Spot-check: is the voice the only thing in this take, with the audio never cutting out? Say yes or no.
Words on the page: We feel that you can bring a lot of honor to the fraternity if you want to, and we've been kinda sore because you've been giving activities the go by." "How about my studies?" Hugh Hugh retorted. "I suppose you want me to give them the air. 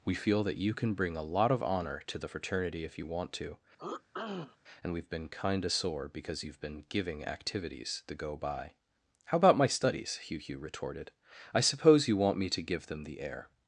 no